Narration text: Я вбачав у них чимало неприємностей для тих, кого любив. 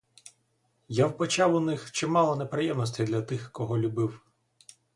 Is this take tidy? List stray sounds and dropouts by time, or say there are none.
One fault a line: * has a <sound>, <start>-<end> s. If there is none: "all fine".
all fine